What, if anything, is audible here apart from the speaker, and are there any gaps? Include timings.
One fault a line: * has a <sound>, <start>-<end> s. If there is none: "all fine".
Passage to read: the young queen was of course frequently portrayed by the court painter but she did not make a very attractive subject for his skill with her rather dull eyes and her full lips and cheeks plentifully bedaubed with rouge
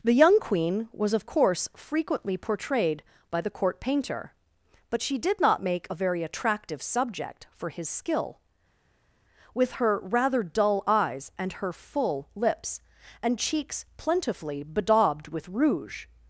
all fine